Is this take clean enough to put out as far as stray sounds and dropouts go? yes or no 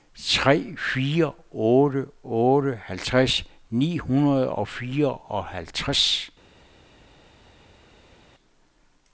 yes